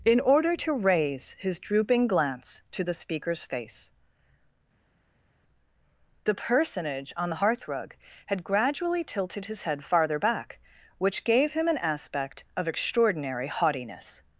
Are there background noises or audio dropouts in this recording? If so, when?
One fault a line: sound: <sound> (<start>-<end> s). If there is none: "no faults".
no faults